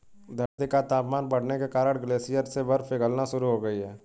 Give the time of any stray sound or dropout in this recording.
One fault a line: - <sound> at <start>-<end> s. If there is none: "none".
- dropout at 0.5-0.6 s